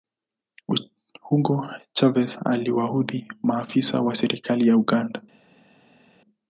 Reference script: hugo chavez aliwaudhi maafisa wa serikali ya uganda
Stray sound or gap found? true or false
false